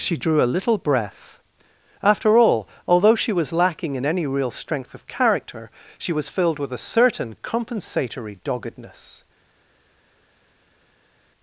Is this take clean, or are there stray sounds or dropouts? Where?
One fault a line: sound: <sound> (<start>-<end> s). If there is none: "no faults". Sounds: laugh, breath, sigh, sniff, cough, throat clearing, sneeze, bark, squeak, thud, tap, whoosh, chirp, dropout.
no faults